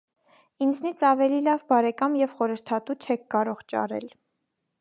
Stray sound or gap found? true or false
false